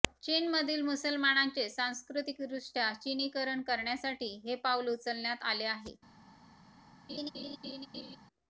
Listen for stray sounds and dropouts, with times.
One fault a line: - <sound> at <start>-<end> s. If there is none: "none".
- laugh at 7.1-8.2 s